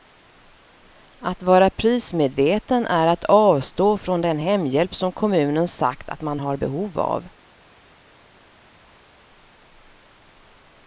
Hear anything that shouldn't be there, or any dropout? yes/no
no